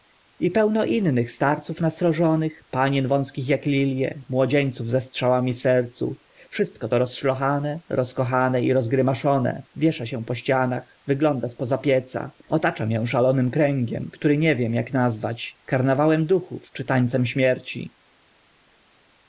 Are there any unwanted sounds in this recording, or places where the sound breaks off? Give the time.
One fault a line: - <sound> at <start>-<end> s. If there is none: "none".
none